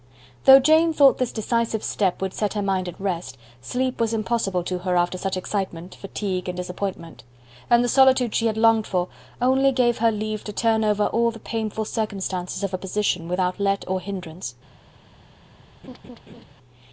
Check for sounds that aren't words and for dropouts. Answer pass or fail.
fail